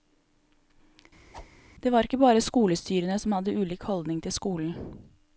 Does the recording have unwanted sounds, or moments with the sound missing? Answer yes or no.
yes